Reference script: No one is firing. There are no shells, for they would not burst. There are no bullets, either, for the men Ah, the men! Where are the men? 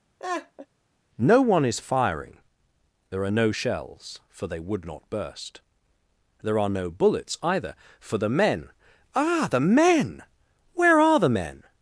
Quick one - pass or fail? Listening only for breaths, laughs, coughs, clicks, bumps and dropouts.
fail